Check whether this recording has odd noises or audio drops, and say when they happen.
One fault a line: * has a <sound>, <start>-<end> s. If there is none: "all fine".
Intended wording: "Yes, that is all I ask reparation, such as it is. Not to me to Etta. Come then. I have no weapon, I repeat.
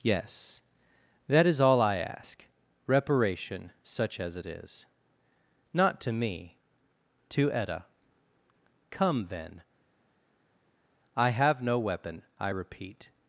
all fine